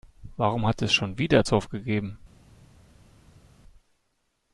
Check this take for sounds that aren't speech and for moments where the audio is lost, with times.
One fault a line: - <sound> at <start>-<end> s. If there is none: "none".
none